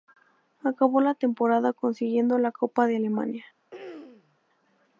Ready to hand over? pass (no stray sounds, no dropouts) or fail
fail